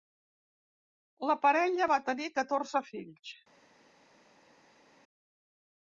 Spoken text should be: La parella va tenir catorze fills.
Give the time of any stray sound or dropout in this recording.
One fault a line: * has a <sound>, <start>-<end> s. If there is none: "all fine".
all fine